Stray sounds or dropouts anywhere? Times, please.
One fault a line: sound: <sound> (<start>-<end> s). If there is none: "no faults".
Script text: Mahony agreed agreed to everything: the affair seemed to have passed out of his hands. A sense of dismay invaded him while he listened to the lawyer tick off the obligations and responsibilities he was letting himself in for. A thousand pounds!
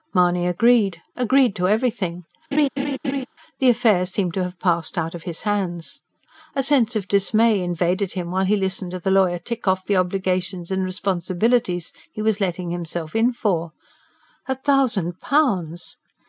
sound: laugh (2.5-3.3 s)